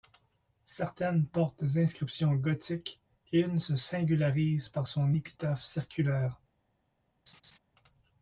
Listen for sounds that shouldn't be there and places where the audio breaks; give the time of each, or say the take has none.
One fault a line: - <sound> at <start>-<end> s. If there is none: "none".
- laugh at 7.3-7.6 s